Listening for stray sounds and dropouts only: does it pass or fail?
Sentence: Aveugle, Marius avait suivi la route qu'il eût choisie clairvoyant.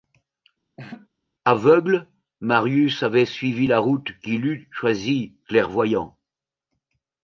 fail